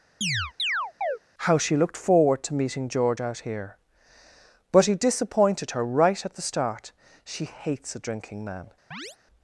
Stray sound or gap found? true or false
true